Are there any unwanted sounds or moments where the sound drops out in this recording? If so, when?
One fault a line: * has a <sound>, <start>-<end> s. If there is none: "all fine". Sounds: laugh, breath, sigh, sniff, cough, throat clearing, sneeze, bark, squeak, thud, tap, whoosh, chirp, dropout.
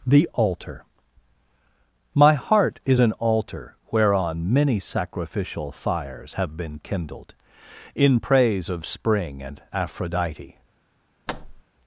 * has a thud, 11.3-11.6 s